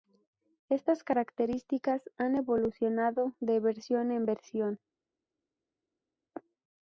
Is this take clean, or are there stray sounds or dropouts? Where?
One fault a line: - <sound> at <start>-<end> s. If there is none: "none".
none